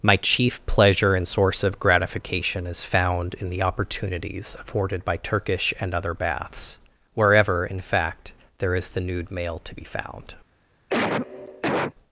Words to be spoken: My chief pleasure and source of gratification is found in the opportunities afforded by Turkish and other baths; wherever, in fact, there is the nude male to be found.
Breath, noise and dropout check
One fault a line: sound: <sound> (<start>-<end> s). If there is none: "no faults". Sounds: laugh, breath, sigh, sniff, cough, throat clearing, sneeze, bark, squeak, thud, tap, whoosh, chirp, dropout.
sound: cough (10.9-11.9 s)